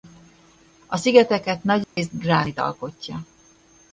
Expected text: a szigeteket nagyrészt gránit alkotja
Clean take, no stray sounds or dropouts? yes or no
no